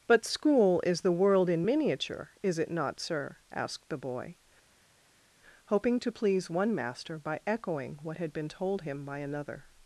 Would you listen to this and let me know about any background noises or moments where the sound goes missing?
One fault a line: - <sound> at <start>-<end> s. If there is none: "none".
none